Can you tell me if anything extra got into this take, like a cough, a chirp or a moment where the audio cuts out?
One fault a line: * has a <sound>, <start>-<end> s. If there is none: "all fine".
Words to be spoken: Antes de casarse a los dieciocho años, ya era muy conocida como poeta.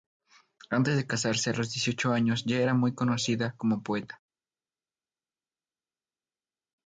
all fine